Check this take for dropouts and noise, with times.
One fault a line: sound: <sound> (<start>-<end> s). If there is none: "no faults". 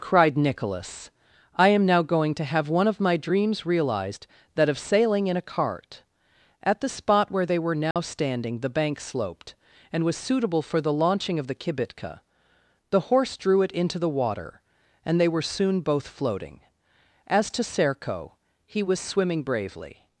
sound: dropout (7.9-8.0 s)